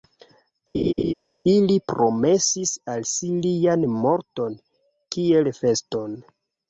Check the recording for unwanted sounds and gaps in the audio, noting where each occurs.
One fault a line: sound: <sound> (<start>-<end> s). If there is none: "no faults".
sound: laugh (0.7-1.1 s)